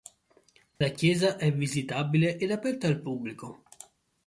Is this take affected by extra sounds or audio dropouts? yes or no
yes